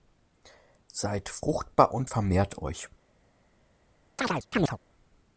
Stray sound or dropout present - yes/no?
yes